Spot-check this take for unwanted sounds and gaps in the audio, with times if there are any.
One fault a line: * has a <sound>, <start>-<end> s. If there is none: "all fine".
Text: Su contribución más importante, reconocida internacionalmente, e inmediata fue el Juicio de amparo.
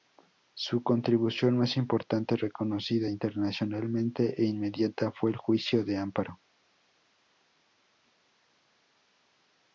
all fine